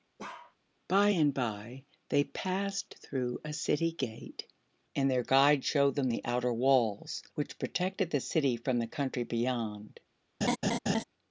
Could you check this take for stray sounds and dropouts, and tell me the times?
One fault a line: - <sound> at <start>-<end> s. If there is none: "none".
- bark at 0.2-0.6 s
- laugh at 10.4-11.0 s